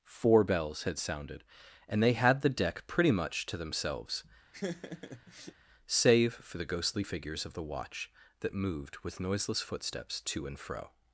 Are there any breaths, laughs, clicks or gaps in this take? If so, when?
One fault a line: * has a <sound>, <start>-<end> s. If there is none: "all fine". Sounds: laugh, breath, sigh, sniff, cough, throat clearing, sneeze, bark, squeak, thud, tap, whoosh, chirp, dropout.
* has a laugh, 4.5-5.5 s